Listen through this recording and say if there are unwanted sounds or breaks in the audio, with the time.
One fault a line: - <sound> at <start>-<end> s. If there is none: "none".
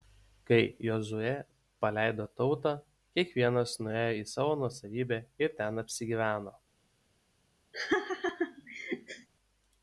- laugh at 7.7-9.3 s